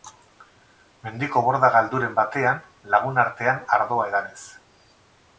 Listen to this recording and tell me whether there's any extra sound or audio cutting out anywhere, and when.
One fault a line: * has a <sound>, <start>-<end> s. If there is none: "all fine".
all fine